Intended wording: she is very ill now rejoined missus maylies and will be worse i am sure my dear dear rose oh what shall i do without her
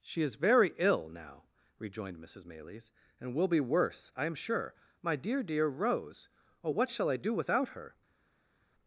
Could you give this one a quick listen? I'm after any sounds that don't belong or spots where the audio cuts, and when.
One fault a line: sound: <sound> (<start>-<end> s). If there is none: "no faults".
no faults